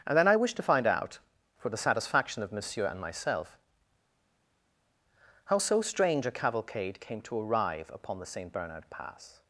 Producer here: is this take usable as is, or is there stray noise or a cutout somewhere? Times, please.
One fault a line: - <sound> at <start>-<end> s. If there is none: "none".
none